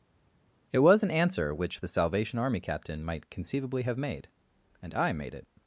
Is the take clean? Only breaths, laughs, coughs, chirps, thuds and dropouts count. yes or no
yes